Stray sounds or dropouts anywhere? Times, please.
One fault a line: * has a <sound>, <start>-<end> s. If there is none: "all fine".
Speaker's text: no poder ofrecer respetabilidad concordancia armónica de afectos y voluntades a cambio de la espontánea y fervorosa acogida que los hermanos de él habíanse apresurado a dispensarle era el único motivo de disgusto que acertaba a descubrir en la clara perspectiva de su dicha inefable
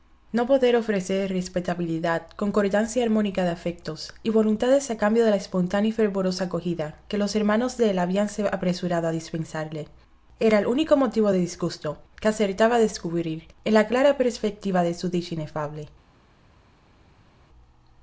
all fine